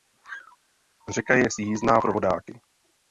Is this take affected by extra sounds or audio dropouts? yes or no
no